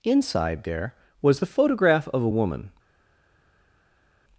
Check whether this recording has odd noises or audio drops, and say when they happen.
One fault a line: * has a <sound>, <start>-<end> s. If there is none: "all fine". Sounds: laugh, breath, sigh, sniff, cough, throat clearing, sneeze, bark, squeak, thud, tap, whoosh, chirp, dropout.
all fine